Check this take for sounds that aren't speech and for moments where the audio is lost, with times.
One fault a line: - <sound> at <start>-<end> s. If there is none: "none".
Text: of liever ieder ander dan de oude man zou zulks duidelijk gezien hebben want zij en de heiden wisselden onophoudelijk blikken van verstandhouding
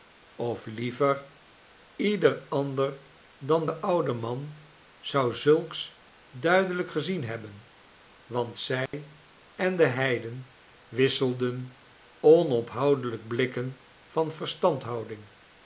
- dropout at 8.9-8.9 s